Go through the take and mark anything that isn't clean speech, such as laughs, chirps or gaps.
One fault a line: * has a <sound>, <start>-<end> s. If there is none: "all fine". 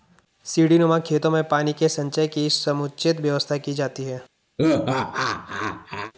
* has a laugh, 4.6-6.1 s